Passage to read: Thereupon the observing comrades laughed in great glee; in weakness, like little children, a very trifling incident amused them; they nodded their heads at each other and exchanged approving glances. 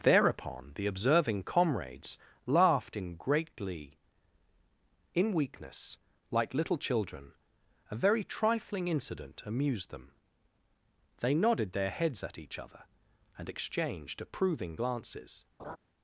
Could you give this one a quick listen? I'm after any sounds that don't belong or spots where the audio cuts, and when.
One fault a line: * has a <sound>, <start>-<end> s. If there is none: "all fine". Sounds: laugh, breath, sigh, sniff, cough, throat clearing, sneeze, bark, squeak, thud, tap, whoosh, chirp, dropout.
* has a laugh, 15.6-15.8 s